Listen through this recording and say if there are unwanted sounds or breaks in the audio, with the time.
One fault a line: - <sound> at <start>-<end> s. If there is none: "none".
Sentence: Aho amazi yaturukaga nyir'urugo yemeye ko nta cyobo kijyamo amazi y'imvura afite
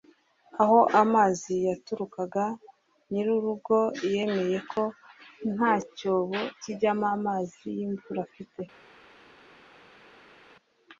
none